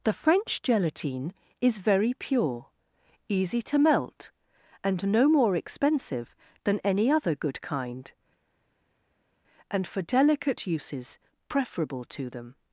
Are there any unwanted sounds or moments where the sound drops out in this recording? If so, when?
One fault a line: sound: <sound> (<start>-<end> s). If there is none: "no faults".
no faults